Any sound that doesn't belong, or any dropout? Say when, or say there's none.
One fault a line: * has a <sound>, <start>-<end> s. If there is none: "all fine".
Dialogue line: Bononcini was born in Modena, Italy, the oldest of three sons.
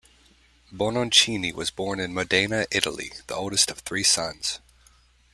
all fine